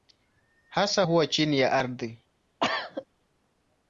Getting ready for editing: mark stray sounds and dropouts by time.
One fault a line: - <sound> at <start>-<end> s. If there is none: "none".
- cough at 2.6-3.1 s